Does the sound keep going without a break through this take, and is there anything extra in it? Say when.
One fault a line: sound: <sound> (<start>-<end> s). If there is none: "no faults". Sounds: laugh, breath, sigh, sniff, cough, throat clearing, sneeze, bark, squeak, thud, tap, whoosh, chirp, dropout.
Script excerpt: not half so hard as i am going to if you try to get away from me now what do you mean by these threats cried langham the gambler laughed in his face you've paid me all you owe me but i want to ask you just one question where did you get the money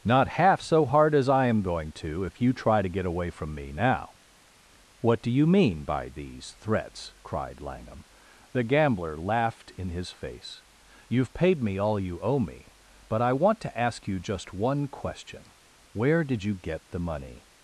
no faults